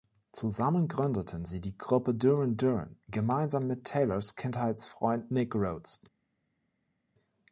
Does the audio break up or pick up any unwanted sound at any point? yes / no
no